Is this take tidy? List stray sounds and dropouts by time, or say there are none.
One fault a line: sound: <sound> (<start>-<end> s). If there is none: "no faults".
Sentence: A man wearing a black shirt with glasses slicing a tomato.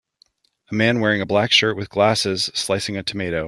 no faults